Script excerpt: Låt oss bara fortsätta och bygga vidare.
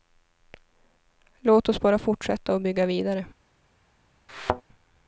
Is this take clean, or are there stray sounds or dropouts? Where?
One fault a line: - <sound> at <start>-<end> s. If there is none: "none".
- thud at 4.3-4.6 s